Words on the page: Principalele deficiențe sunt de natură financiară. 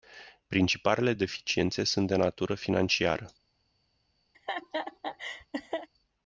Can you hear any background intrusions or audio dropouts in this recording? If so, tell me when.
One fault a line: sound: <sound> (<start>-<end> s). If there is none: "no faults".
sound: laugh (4.3-5.9 s)